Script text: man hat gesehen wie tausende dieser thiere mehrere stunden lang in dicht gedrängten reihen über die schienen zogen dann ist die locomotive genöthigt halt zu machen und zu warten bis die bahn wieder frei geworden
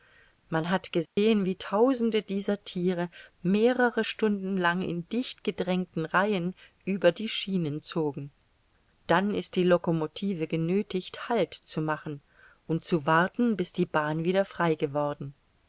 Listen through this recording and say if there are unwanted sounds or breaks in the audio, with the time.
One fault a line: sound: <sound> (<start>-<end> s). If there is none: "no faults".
sound: dropout (1.1-1.2 s)